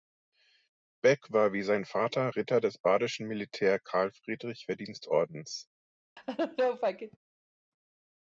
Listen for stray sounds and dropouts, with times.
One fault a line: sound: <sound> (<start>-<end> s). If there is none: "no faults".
sound: laugh (6.2-7.2 s)